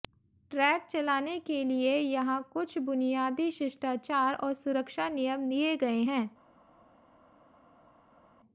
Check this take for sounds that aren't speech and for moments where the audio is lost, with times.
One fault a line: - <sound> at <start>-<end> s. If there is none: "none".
none